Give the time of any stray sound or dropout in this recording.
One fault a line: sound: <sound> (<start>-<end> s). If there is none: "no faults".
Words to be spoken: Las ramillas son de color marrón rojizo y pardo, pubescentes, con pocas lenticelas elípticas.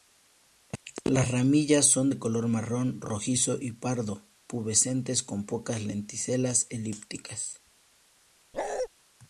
sound: bark (8.5-8.9 s)